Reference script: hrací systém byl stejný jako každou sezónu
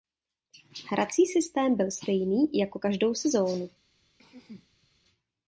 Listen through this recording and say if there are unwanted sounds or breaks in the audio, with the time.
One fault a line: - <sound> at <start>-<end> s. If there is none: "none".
- throat clearing at 4.2-4.9 s